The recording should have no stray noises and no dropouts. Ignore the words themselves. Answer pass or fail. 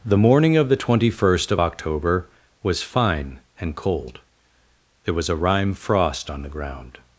pass